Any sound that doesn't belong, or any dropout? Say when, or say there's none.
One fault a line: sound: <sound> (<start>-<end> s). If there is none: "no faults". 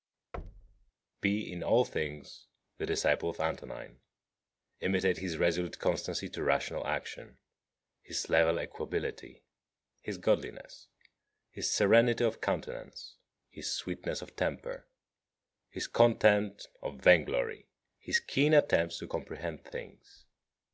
sound: thud (0.3-0.9 s)